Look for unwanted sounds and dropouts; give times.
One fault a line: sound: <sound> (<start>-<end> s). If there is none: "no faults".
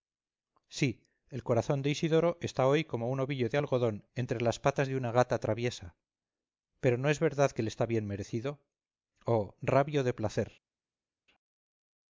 no faults